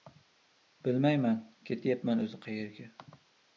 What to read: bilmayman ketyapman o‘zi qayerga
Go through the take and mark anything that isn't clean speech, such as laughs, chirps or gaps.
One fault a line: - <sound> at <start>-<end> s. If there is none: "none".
none